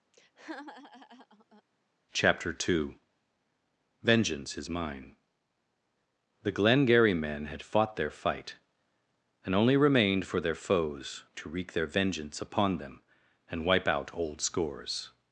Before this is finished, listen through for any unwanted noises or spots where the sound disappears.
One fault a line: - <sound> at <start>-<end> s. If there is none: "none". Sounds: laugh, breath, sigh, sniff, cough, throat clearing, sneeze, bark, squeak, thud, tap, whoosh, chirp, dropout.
- laugh at 0.1-1.6 s